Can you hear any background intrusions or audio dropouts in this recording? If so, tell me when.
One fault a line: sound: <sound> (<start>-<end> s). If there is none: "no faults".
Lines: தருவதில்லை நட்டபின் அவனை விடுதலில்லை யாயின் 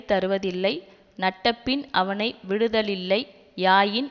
no faults